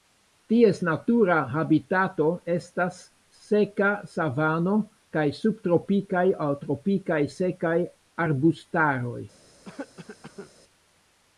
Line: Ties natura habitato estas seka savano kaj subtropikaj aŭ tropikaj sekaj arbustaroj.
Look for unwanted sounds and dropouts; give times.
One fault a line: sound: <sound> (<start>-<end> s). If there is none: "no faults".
sound: cough (9.6-10.5 s)